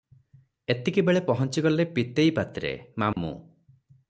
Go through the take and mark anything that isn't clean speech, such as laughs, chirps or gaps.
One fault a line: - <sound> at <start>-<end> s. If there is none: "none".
- dropout at 3.1-3.2 s